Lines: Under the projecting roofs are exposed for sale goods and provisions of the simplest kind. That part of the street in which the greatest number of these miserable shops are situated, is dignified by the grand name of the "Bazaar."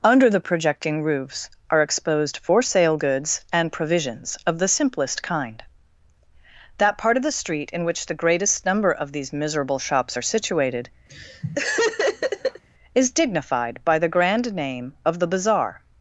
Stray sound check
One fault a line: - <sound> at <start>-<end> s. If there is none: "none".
- laugh at 11.1-12.6 s